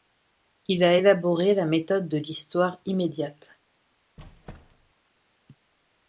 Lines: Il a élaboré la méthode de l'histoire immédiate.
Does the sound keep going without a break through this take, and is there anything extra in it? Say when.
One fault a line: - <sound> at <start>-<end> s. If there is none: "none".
- squeak at 4.2-4.9 s